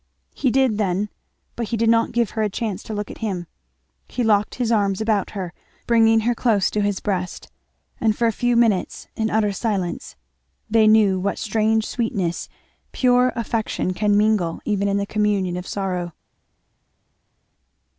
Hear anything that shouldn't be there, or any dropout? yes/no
no